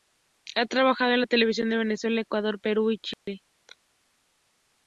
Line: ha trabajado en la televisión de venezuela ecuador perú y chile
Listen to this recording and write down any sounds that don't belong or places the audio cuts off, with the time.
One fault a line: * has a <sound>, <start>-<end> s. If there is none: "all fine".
* has a dropout, 3.1-3.3 s